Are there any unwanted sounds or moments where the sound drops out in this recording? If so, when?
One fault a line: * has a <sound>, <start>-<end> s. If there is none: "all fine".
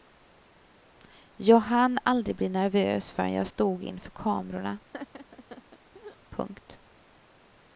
* has a laugh, 4.9-6.2 s